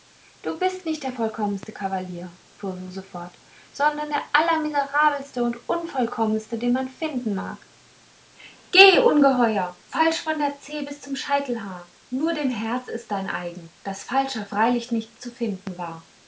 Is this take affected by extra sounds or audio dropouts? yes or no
no